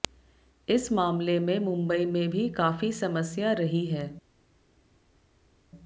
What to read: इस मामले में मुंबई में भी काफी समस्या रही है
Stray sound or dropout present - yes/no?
no